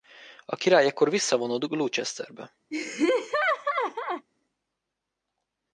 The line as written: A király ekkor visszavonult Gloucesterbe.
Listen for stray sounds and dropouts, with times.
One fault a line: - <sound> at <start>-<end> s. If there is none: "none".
- laugh at 2.7-4.3 s